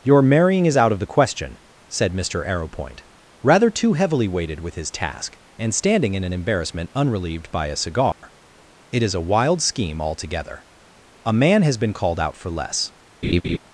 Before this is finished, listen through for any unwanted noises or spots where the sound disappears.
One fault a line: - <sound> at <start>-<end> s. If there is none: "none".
- dropout at 8.1-8.2 s
- laugh at 13.2-13.6 s